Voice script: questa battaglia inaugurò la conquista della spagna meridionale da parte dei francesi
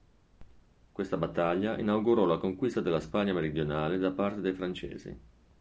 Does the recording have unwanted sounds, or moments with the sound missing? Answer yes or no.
no